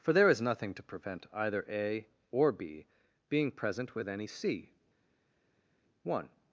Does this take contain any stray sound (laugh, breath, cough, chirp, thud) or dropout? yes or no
no